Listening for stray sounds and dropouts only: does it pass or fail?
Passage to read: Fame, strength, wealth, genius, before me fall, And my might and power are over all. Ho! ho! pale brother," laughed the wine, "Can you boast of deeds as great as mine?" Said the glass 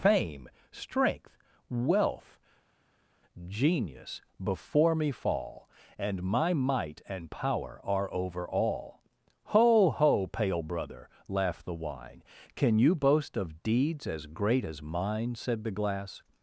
pass